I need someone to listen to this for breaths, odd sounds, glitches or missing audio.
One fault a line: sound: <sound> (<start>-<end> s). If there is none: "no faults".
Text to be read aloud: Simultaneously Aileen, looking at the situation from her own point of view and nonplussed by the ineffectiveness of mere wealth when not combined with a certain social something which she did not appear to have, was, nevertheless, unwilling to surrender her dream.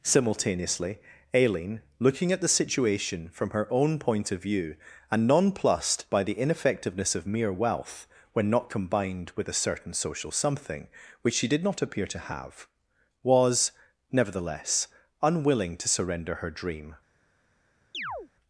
sound: chirp (17.9-18.3 s)